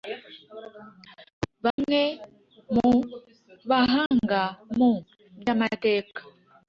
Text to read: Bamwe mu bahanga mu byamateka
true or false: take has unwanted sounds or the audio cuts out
true